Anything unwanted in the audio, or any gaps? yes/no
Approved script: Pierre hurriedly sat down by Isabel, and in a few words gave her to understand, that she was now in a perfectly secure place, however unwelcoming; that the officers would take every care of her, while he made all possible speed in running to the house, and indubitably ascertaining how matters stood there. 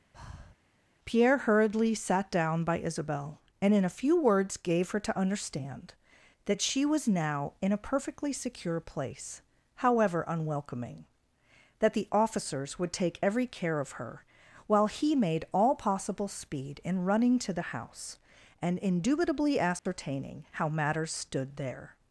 yes